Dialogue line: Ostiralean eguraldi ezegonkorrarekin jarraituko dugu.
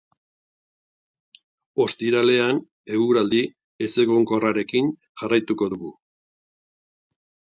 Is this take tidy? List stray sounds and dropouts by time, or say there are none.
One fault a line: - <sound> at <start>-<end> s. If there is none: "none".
none